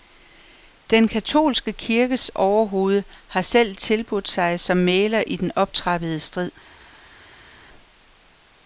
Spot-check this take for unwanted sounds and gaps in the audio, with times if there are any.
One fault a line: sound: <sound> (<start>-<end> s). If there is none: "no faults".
no faults